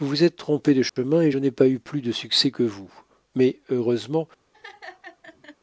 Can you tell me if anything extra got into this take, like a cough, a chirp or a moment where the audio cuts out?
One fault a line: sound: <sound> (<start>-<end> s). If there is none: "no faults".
sound: dropout (0.9-1.0 s)
sound: laugh (4.5-5.6 s)